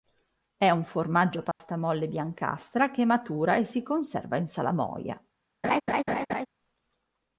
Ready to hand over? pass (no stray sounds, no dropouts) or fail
fail